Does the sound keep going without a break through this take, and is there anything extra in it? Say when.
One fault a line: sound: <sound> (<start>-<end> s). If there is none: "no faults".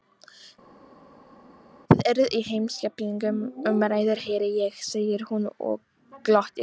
no faults